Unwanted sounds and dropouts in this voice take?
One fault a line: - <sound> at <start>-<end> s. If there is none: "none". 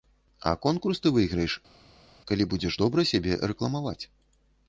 none